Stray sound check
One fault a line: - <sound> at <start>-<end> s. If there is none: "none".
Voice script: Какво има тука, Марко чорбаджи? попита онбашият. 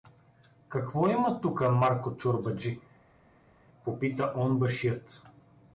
none